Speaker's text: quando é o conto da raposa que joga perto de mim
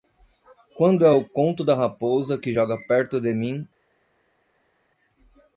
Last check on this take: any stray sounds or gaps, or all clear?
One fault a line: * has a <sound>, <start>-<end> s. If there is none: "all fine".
all fine